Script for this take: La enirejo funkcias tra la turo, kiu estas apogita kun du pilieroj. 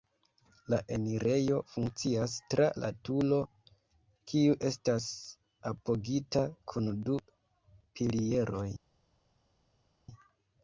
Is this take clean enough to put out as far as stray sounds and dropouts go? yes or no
yes